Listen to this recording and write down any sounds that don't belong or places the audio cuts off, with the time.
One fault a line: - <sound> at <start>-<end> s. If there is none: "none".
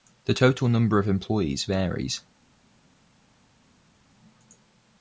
none